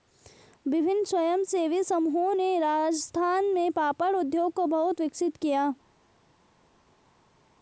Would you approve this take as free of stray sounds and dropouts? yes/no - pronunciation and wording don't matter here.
yes